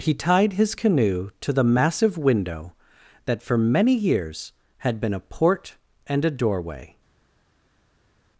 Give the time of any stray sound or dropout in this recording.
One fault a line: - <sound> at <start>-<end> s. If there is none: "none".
none